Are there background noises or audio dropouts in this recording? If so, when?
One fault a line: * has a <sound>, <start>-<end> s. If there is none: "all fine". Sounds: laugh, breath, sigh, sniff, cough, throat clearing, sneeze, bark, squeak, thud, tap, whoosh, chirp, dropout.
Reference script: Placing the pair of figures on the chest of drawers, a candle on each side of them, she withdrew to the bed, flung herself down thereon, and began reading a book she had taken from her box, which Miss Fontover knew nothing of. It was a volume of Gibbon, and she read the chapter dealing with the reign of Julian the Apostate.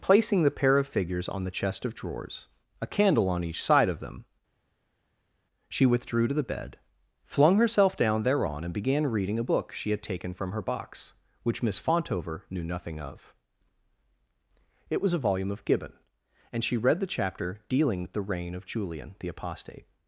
all fine